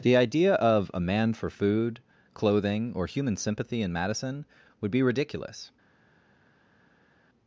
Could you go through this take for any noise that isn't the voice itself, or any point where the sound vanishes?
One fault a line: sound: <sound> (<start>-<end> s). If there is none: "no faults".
no faults